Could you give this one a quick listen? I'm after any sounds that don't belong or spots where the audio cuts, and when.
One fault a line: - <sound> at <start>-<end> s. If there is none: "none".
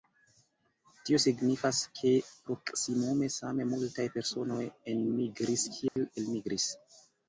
- dropout at 5.9-6.0 s